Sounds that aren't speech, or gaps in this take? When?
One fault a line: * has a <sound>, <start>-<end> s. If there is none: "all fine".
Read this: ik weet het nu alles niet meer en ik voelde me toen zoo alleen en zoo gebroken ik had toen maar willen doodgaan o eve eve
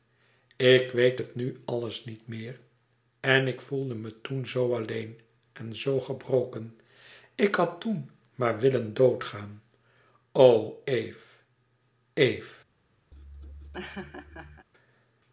* has a laugh, 13.1-14.7 s